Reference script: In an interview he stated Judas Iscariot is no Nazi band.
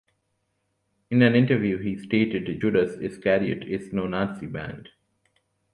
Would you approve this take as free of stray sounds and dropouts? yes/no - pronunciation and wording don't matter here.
yes